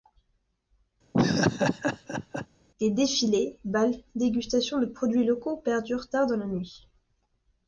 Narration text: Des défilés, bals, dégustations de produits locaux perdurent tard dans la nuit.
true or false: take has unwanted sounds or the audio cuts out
true